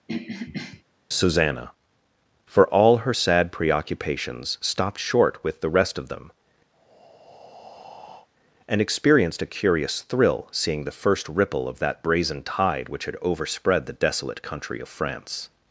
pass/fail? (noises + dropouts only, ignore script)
fail